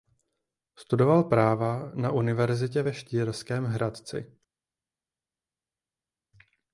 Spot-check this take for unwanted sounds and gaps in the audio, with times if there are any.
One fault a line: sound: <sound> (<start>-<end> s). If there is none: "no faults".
no faults